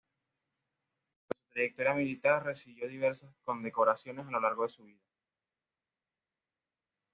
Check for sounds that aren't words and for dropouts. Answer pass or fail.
pass